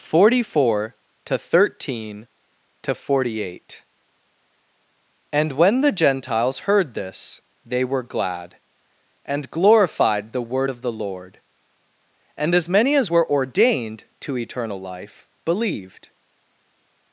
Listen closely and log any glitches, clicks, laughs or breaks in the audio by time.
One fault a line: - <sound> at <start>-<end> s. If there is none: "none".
none